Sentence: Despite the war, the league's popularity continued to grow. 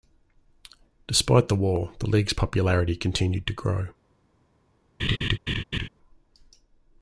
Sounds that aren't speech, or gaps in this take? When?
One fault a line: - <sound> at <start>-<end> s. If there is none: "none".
- laugh at 5.0-5.9 s